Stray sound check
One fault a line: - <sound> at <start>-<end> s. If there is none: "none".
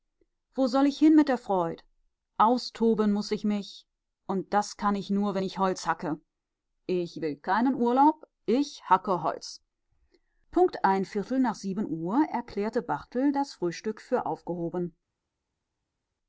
none